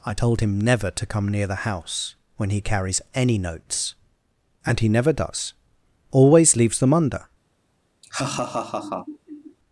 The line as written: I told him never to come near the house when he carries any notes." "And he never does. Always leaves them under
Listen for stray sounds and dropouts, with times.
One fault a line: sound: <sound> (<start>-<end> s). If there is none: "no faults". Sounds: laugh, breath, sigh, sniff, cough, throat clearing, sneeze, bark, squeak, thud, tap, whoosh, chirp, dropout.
sound: laugh (8.0-9.6 s)